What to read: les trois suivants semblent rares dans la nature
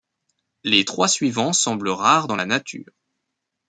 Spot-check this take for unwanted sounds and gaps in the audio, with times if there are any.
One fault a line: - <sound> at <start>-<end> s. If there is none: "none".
none